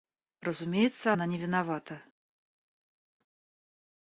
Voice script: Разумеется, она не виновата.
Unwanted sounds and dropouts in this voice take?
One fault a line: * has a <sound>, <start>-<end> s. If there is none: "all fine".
all fine